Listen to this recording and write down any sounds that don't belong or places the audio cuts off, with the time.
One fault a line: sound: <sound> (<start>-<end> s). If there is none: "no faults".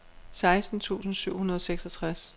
no faults